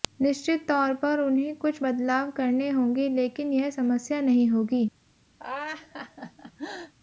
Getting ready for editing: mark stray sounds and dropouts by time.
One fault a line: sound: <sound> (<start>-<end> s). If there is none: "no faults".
sound: laugh (5.4-6.9 s)